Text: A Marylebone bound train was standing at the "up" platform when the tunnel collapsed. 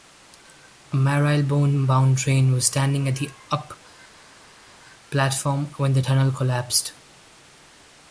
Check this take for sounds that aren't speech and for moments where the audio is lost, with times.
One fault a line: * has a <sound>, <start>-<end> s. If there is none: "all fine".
all fine